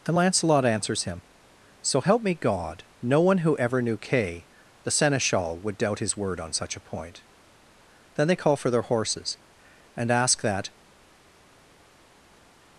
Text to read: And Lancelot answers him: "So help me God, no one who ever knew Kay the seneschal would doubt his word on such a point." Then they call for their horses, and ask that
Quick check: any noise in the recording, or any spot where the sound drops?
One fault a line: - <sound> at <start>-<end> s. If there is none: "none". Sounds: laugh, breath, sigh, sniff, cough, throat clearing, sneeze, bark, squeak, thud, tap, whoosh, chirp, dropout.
none